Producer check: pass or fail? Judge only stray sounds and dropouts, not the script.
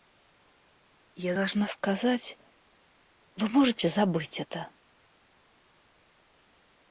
pass